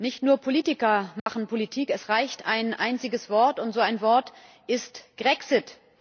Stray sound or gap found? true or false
true